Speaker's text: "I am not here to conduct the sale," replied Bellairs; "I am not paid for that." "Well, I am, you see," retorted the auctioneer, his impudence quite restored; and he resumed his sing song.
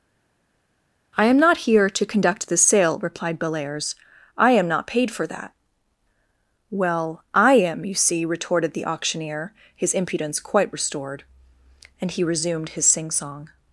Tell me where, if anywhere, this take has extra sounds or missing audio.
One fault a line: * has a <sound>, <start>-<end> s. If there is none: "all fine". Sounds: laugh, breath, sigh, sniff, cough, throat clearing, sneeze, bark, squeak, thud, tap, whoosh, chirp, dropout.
all fine